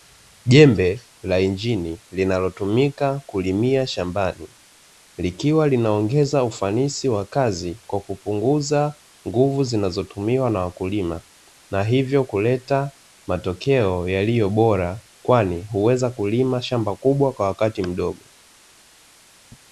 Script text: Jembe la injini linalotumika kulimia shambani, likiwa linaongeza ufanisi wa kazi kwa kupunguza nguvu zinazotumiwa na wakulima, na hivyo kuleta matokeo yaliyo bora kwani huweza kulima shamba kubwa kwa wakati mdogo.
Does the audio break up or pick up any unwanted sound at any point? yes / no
no